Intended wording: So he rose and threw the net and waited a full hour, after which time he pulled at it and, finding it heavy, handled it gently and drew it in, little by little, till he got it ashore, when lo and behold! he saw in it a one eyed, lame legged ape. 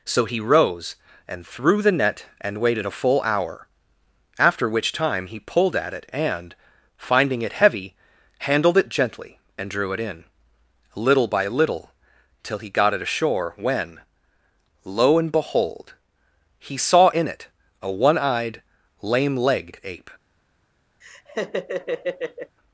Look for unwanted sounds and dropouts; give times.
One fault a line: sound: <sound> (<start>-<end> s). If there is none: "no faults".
sound: laugh (21.0-22.6 s)